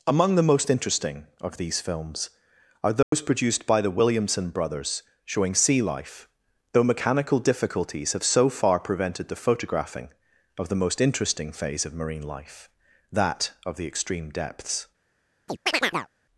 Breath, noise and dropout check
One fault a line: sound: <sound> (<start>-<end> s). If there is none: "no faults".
sound: dropout (3.0-3.1 s)
sound: chirp (15.5-16.1 s)